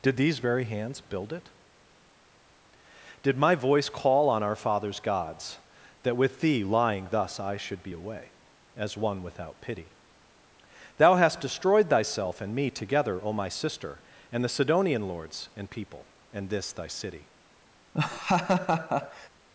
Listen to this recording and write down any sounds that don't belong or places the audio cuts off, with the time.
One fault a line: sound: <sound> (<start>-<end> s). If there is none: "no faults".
sound: laugh (17.9-19.3 s)